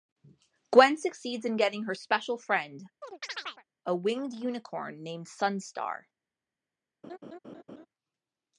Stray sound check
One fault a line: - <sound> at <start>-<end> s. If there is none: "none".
- chirp at 3.0-3.6 s
- laugh at 7.0-7.9 s